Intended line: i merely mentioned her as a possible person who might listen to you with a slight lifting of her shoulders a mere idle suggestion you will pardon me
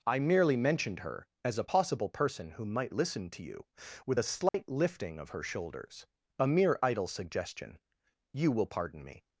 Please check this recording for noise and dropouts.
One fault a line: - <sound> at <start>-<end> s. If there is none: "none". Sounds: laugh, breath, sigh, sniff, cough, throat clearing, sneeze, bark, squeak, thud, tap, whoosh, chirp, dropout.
- dropout at 4.5-4.5 s